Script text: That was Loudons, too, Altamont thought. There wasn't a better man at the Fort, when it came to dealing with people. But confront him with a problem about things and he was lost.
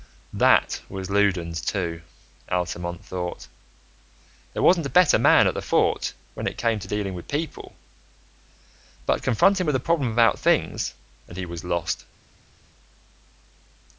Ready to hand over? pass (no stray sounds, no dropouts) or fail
pass